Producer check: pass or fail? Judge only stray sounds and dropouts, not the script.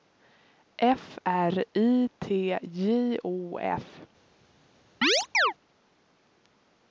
fail